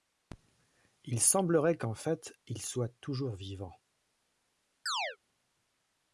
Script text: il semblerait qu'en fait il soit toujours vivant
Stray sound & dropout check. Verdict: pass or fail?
fail